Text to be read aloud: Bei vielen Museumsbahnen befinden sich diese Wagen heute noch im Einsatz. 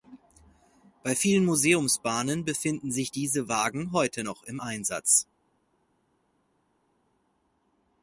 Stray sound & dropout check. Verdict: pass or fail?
pass